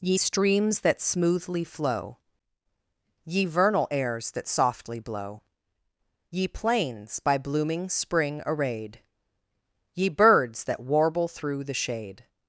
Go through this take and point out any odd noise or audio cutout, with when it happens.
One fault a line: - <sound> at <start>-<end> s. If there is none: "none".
none